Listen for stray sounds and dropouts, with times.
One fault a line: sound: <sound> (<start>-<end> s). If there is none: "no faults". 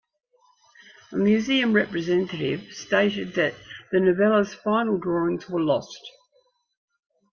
no faults